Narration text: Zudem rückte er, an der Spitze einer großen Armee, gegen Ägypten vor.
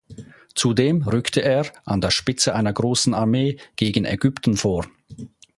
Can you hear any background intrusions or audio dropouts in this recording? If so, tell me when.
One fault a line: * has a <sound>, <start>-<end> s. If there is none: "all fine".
all fine